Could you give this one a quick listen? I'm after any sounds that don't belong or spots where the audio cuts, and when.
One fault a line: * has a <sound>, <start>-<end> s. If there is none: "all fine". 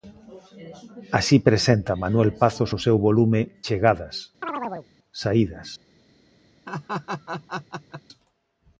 * has a chirp, 4.4-4.9 s
* has a laugh, 6.7-8.0 s